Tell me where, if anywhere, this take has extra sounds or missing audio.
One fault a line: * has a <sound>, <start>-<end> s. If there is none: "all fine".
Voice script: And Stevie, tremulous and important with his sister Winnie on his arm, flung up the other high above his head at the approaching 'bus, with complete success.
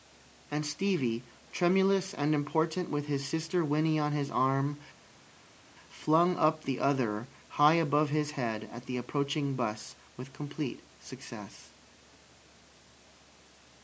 all fine